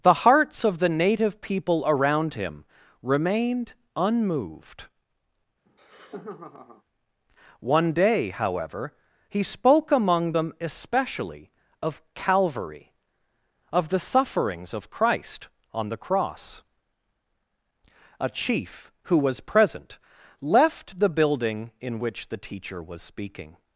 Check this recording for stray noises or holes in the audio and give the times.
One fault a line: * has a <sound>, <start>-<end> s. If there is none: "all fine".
* has a laugh, 5.7-6.8 s